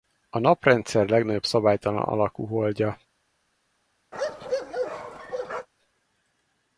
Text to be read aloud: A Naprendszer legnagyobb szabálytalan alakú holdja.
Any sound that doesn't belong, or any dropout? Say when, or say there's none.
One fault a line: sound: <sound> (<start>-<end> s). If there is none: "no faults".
sound: bark (4.1-5.7 s)